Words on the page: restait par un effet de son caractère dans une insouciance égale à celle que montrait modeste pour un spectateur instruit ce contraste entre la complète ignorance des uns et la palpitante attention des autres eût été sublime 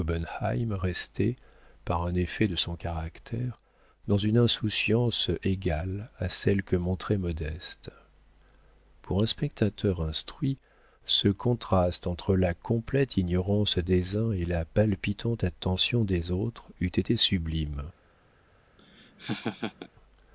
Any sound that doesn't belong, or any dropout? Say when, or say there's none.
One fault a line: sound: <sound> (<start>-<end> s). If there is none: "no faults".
sound: laugh (18.8-19.9 s)